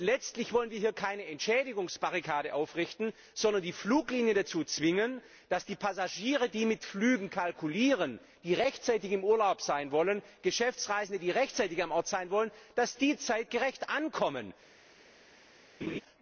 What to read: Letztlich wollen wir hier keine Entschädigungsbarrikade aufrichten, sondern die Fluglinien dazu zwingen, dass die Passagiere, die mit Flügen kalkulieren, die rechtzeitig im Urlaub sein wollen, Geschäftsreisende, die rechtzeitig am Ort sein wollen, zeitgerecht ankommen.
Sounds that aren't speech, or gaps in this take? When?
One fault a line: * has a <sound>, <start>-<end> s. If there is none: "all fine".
* has a laugh, 15.8-16.0 s